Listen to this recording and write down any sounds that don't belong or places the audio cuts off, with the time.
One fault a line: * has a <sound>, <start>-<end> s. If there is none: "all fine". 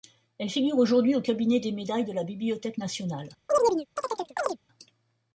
* has a chirp, 3.5-4.6 s